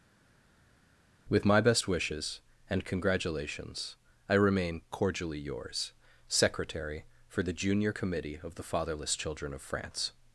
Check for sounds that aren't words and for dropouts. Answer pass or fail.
pass